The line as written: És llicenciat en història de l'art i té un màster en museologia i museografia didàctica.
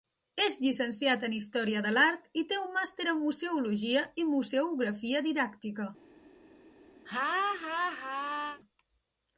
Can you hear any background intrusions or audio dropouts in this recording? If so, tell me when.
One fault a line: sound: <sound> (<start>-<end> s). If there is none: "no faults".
sound: laugh (7.1-8.6 s)